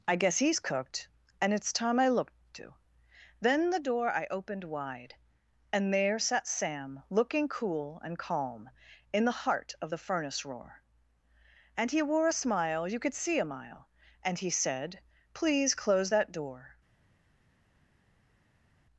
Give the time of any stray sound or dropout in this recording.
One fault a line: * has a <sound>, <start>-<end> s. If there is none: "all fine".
all fine